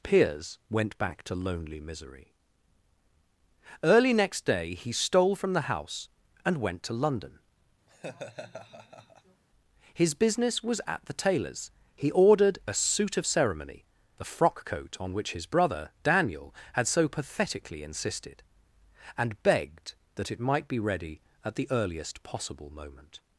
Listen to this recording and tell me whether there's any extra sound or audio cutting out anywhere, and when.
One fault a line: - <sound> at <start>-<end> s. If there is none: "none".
- laugh at 7.9-9.4 s